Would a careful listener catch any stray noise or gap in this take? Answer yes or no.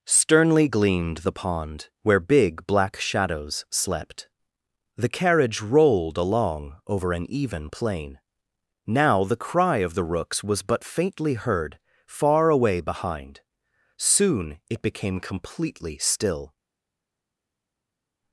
no